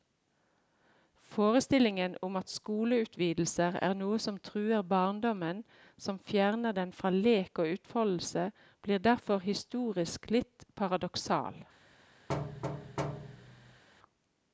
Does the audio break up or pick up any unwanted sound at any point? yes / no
yes